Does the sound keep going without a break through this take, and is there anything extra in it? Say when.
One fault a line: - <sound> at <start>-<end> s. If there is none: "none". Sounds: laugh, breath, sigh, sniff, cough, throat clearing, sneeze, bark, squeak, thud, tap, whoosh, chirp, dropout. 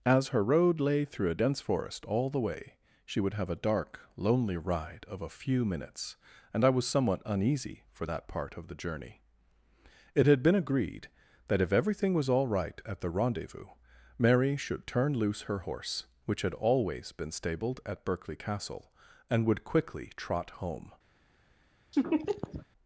- laugh at 21.9-22.7 s